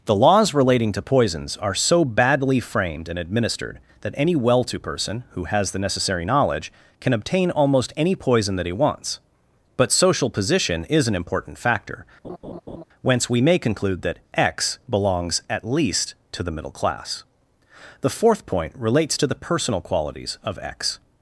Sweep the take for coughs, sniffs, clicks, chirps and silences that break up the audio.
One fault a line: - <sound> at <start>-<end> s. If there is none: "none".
- laugh at 12.2-12.8 s